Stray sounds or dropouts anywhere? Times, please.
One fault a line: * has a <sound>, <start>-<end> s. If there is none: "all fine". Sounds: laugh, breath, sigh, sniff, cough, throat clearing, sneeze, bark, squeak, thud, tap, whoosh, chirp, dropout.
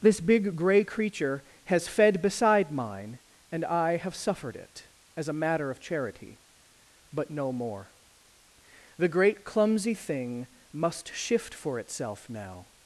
all fine